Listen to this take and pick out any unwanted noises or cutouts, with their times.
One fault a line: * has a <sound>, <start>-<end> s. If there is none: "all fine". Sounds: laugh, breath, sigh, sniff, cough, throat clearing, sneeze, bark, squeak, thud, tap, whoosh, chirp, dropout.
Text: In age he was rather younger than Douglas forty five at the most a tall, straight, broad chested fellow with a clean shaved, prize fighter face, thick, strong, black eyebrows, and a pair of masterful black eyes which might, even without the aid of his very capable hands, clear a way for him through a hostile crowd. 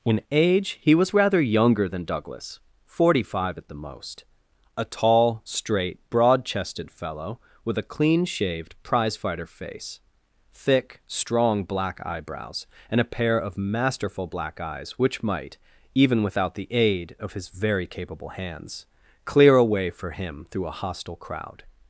all fine